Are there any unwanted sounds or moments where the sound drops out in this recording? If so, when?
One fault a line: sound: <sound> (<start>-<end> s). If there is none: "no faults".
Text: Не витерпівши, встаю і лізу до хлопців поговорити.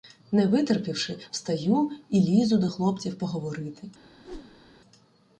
sound: whoosh (4.2-4.7 s)